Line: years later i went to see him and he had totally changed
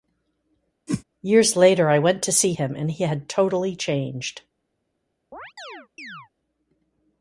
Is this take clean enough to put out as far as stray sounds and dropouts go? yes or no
no